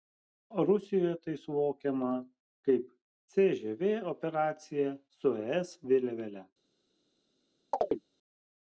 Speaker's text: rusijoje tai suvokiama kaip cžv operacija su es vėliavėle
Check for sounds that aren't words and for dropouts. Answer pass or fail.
fail